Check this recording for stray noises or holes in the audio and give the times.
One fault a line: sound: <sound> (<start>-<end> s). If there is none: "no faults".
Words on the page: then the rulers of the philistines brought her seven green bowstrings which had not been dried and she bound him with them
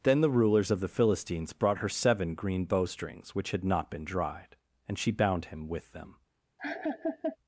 sound: laugh (6.6-7.4 s)